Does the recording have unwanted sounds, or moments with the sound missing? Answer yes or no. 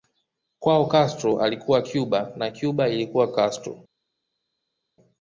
no